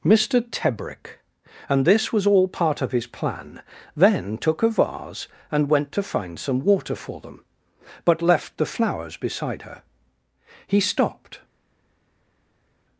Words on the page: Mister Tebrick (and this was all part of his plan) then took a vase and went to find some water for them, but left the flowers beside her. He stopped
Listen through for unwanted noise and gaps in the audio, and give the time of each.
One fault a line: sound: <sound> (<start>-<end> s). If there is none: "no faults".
no faults